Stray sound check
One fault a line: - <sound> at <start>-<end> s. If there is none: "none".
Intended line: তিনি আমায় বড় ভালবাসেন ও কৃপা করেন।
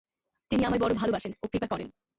none